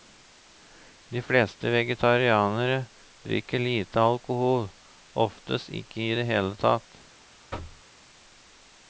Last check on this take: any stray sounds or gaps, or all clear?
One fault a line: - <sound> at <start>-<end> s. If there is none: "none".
- thud at 7.5-7.8 s